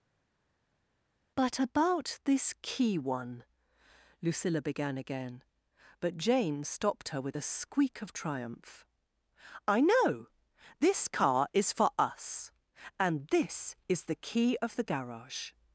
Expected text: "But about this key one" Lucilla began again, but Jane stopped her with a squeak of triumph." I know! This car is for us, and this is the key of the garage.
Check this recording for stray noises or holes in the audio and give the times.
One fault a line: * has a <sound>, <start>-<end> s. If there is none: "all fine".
all fine